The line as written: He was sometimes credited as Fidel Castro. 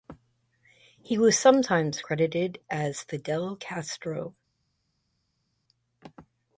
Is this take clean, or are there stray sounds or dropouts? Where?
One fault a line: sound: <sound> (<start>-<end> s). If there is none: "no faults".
no faults